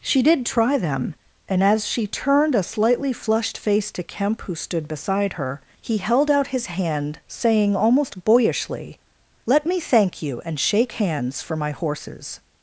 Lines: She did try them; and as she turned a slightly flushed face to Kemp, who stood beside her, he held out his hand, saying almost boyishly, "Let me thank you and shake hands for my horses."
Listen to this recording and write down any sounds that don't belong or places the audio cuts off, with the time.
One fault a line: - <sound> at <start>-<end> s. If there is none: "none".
none